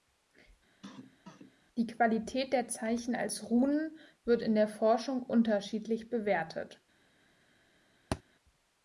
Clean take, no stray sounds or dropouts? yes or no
no